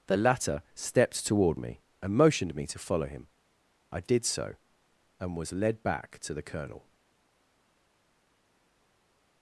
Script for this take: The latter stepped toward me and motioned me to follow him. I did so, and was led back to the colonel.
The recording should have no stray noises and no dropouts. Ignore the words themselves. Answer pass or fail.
pass